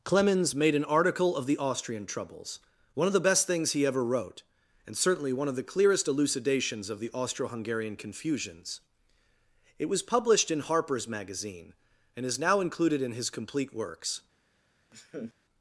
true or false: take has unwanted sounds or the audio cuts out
true